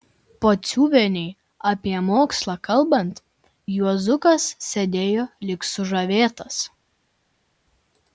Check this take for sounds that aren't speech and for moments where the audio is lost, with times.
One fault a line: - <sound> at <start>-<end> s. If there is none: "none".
none